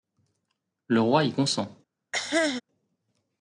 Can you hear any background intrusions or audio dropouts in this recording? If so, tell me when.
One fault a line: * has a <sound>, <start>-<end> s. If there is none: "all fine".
* has a cough, 2.1-2.6 s